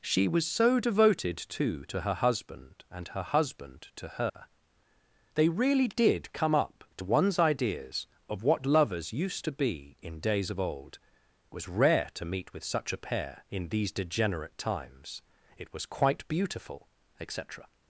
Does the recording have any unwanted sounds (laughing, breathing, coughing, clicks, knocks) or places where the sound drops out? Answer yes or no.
yes